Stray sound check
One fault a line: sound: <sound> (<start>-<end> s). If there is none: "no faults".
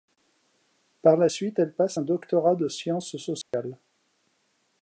sound: dropout (3.4-3.5 s)